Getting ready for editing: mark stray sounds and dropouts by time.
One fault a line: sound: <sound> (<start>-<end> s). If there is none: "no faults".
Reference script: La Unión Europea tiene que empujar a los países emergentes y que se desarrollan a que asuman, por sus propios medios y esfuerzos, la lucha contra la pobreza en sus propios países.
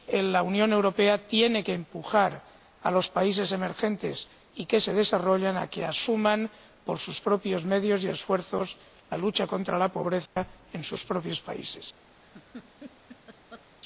sound: dropout (10.3-10.4 s)
sound: laugh (12.2-13.7 s)